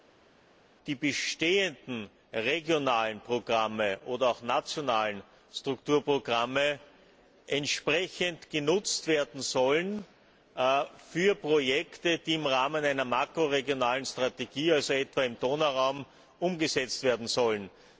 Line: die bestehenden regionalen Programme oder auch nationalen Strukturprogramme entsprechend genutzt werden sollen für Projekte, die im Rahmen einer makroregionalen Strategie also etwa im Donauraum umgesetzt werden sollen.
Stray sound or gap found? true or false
false